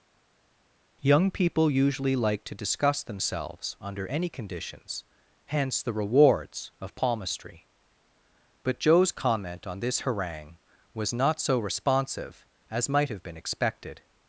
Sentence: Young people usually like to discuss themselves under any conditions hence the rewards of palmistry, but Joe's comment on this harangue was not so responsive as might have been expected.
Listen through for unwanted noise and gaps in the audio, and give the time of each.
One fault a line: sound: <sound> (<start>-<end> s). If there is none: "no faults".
no faults